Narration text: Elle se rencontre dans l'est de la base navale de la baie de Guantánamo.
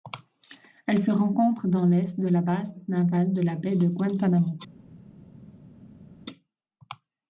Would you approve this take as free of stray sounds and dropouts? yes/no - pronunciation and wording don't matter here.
yes